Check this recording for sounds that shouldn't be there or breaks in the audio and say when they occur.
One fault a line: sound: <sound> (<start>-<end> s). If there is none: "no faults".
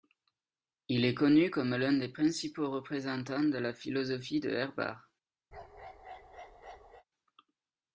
sound: bark (5.5-7.0 s)